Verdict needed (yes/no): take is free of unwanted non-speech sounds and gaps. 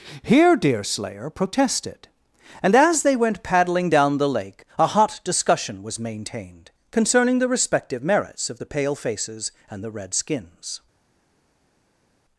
yes